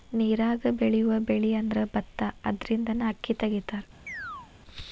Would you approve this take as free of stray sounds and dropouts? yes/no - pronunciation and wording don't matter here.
no